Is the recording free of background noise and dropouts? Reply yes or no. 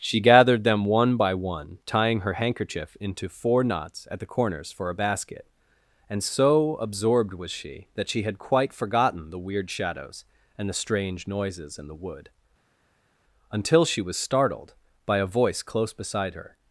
yes